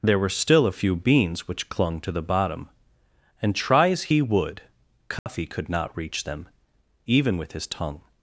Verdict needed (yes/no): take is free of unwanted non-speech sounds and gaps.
no